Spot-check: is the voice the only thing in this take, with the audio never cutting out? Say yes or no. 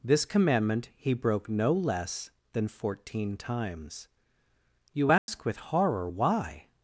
no